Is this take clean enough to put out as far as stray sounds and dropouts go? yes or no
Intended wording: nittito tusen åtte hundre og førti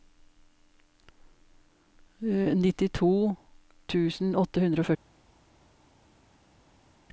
yes